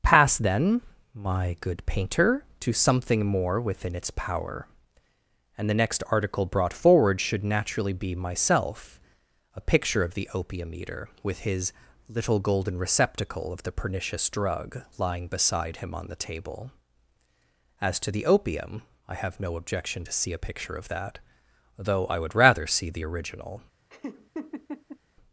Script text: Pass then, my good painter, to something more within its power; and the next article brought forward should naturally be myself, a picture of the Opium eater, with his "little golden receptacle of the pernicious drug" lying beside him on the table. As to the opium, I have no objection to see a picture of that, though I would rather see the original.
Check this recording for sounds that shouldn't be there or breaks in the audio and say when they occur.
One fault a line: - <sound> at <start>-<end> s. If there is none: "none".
- laugh at 23.9-25.0 s